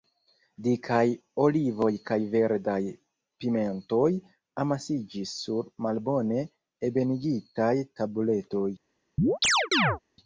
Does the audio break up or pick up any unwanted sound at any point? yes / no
yes